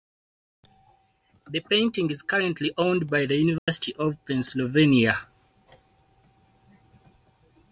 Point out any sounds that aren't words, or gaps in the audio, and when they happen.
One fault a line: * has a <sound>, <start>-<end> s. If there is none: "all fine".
* has a dropout, 3.6-3.7 s